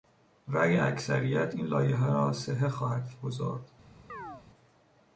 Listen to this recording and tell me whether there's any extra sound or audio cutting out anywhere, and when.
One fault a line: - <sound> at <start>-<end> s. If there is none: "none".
- chirp at 4.1-4.4 s